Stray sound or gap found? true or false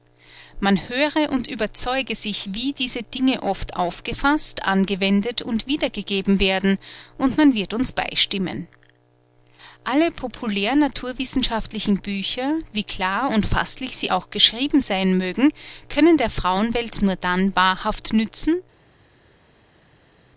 false